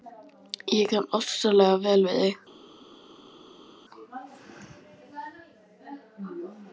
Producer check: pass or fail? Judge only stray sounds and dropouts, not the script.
pass